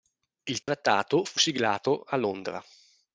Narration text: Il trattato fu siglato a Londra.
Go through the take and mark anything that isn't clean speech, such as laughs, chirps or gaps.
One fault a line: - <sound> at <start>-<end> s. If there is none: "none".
- dropout at 0.6-0.7 s